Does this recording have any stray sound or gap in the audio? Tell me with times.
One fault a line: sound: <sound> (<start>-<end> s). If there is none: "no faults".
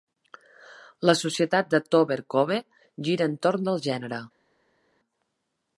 no faults